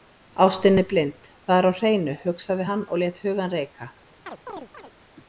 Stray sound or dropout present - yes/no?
yes